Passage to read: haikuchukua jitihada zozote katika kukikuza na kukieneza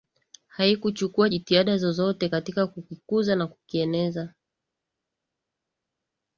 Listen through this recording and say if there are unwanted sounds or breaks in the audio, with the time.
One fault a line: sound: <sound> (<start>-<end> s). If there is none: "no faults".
no faults